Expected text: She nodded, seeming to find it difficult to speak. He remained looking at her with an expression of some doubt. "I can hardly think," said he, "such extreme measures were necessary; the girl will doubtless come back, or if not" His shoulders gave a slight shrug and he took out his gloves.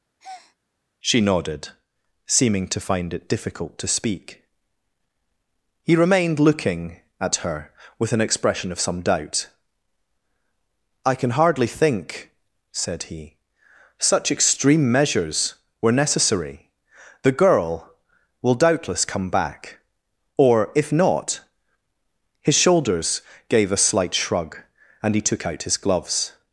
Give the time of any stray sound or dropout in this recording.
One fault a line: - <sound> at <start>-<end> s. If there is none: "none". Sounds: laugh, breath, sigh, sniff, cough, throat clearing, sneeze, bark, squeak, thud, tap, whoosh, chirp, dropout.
- breath at 0.2-0.6 s